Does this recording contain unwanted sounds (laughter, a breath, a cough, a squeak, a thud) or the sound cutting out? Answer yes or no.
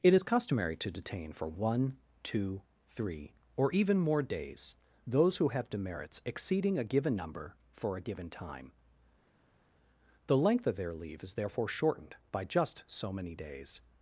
no